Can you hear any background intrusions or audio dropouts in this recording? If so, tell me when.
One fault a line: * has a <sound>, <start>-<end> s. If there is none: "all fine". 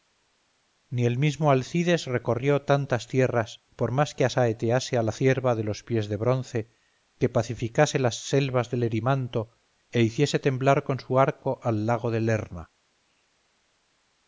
all fine